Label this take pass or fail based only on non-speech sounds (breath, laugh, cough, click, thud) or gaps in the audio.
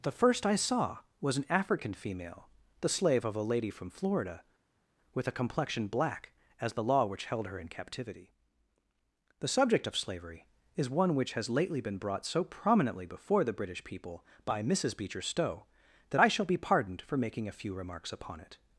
pass